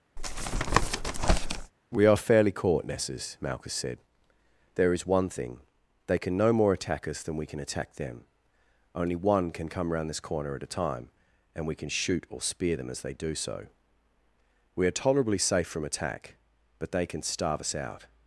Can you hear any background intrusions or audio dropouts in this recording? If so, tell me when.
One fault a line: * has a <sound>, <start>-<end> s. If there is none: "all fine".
* has a tap, 0.2-1.7 s